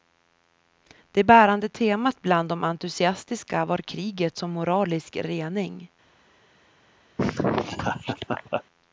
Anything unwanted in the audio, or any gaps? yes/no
yes